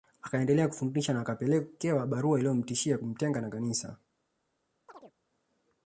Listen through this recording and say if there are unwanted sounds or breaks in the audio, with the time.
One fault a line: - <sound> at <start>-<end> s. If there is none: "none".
- chirp at 4.9-5.1 s